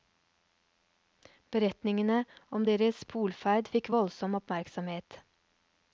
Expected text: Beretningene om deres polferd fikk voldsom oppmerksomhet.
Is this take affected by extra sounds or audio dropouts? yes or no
no